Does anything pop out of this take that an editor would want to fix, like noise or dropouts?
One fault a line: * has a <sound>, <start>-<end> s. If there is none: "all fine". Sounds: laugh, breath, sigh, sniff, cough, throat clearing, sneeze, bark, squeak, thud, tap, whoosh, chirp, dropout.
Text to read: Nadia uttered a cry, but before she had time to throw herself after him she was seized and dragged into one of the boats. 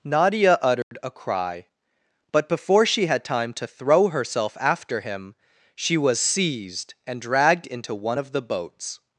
* has a dropout, 0.8-0.9 s